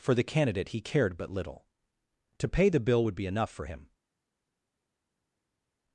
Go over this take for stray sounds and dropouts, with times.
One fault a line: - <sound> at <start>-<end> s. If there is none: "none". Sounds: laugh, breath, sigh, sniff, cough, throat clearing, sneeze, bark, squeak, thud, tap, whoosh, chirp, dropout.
none